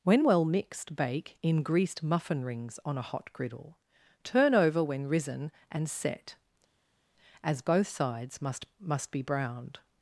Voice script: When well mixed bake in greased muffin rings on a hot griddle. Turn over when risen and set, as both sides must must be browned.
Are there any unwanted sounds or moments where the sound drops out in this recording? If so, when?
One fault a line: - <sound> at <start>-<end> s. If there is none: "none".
none